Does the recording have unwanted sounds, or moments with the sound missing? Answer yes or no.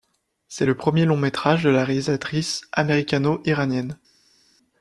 no